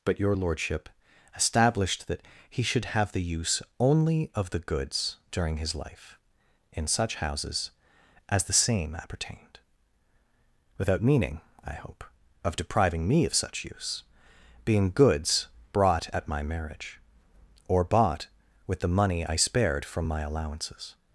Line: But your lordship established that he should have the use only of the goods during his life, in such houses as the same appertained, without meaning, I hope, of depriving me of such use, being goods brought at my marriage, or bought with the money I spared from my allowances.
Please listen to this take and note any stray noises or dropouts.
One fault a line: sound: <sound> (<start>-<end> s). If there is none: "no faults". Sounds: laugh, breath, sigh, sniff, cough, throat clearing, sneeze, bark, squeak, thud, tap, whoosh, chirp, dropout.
no faults